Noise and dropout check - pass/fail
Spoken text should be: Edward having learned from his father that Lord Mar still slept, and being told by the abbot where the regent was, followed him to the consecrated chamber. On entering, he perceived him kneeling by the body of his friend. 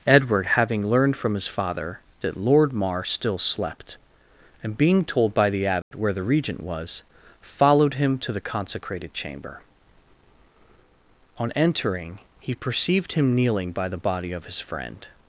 fail